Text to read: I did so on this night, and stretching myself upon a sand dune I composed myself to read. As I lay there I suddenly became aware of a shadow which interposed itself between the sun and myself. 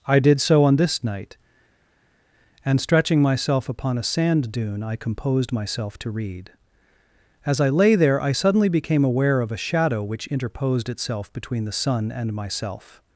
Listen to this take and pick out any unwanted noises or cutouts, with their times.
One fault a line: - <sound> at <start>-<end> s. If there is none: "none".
none